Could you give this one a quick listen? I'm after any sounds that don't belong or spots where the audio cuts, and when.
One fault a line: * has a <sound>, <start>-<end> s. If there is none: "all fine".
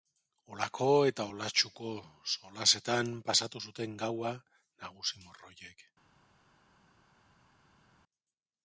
all fine